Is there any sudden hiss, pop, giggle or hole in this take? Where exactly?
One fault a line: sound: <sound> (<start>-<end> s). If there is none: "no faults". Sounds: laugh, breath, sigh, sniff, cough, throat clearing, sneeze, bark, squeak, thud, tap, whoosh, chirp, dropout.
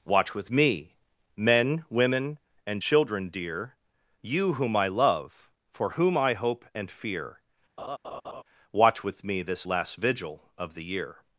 sound: laugh (7.8-8.4 s)